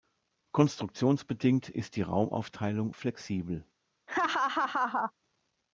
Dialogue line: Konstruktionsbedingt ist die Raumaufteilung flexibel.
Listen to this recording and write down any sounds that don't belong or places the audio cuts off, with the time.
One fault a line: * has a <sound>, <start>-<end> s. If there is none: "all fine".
* has a laugh, 4.1-5.1 s